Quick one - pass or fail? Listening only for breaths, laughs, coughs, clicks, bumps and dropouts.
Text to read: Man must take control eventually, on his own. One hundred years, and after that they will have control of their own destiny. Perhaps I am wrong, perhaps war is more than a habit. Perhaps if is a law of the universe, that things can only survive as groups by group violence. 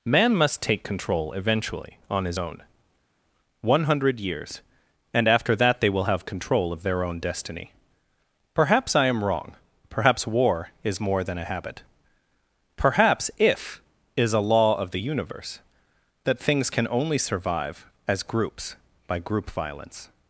pass